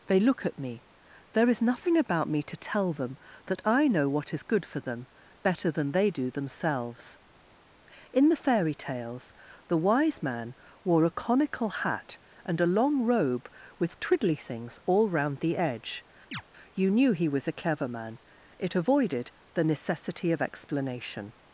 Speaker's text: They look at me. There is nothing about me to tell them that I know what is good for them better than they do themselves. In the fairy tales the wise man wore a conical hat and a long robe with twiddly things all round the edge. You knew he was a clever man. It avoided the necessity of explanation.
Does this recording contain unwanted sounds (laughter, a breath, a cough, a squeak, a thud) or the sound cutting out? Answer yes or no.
yes